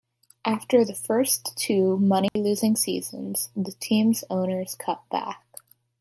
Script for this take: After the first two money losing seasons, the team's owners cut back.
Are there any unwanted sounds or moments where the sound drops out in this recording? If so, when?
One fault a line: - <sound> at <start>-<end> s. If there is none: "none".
- dropout at 2.3-2.4 s